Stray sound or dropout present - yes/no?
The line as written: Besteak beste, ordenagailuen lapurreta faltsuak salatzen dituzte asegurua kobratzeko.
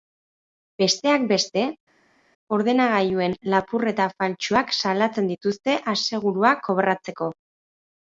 no